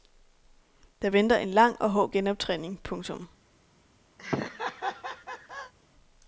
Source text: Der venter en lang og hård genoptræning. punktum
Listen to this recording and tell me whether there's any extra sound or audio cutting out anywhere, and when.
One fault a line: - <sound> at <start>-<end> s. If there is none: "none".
- laugh at 4.2-5.7 s